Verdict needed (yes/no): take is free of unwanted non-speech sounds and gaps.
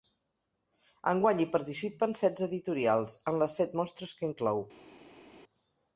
yes